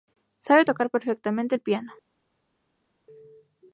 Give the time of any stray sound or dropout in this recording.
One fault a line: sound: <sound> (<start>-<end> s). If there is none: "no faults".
no faults